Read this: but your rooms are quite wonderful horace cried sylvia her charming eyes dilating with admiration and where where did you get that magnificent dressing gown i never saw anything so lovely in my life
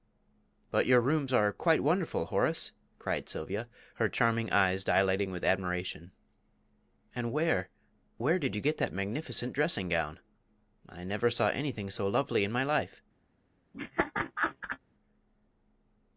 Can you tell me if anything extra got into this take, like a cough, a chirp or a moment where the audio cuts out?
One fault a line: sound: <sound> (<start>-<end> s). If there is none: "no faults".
sound: laugh (13.7-14.8 s)